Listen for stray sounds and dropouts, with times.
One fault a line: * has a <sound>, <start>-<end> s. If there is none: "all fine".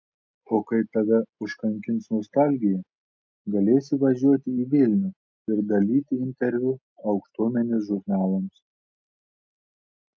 all fine